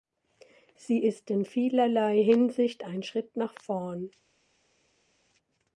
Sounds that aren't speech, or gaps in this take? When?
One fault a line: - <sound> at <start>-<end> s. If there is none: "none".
none